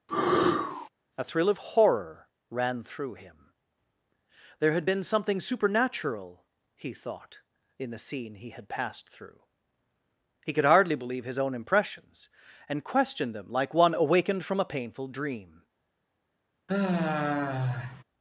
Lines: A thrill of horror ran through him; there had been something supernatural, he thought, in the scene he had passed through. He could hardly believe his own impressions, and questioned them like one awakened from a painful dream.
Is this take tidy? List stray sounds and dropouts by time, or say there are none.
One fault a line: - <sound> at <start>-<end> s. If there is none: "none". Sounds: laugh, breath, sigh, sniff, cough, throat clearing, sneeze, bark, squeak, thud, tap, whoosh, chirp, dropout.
- sneeze at 0.1-0.9 s
- sigh at 16.7-18.0 s